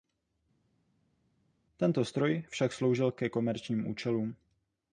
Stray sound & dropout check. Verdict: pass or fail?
pass